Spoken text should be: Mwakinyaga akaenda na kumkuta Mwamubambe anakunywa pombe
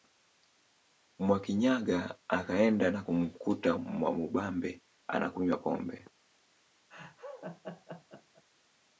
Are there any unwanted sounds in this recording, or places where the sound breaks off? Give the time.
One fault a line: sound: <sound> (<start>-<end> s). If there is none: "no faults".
sound: laugh (6.9-8.4 s)